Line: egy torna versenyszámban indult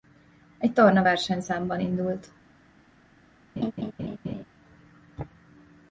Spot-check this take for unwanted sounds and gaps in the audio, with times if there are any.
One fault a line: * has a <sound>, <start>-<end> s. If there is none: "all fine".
* has a laugh, 3.6-4.4 s